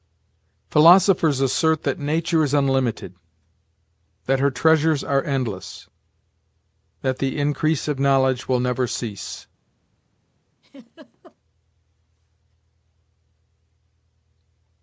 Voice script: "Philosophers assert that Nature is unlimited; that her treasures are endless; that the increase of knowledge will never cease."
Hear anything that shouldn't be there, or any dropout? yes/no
yes